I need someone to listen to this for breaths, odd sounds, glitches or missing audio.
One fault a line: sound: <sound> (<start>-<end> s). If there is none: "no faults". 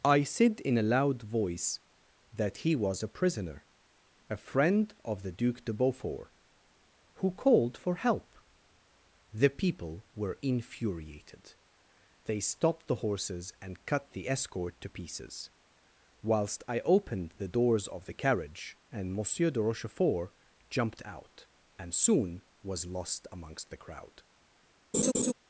sound: laugh (24.9-25.3 s)